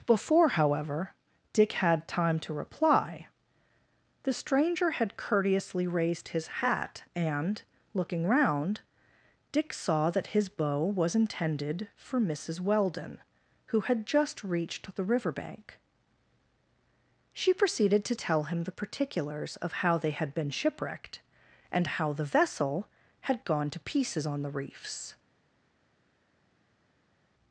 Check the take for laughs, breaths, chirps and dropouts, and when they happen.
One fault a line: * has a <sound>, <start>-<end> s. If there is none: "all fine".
all fine